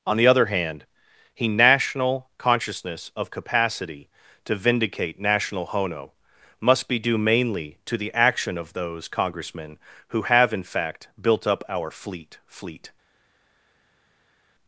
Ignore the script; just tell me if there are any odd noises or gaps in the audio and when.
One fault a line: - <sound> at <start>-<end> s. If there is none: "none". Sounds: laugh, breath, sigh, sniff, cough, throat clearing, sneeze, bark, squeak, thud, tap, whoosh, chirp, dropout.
none